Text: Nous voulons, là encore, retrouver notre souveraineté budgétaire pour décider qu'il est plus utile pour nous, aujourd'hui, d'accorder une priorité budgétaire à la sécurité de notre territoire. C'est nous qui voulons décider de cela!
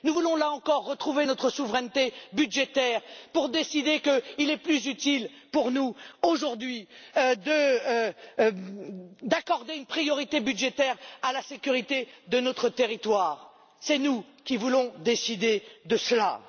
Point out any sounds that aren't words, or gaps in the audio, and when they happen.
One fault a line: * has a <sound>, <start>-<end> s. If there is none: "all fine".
all fine